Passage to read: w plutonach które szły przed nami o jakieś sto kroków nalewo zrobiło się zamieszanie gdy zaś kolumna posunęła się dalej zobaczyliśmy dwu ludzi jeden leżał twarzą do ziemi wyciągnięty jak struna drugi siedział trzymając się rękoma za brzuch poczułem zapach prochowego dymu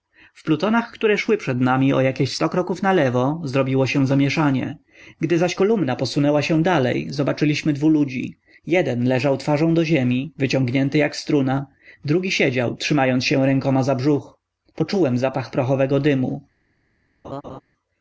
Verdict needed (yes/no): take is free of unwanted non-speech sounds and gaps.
no